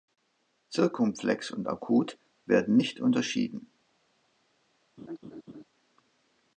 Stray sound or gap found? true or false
true